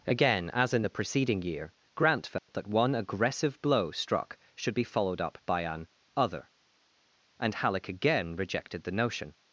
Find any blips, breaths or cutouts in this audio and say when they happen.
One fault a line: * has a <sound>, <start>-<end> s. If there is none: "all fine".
* has a dropout, 2.4-2.5 s